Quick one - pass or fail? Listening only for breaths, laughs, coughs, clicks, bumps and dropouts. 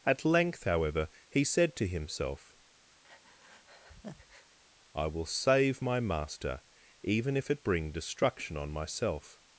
fail